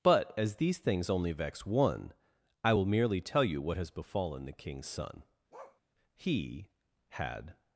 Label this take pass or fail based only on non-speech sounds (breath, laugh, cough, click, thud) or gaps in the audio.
fail